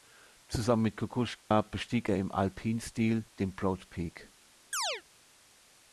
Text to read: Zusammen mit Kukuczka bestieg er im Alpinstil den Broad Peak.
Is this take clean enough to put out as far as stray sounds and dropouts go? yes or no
no